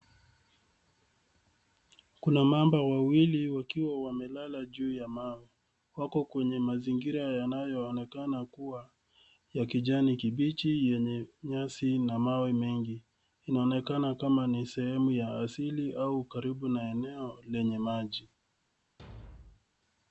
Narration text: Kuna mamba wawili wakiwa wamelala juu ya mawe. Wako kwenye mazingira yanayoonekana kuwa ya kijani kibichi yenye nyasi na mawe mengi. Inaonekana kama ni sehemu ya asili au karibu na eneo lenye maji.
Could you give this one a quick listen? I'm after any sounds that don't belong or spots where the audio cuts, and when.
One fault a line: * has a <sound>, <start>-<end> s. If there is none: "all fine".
* has a thud, 19.0-19.7 s